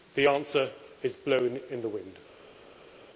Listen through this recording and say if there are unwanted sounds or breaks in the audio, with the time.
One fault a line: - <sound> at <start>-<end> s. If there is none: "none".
none